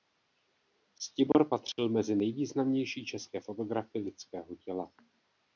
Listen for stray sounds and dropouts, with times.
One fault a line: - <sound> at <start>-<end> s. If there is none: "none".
- dropout at 1.3-1.3 s